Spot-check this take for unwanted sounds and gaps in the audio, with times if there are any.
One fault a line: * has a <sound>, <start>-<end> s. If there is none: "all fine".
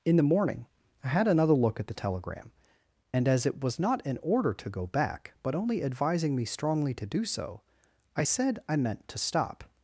all fine